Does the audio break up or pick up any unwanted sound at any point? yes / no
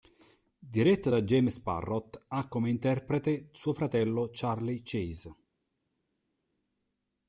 no